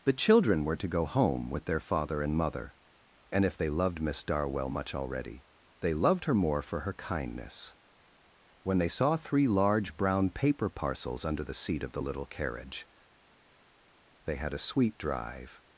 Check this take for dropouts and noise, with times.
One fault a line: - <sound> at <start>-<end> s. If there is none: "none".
none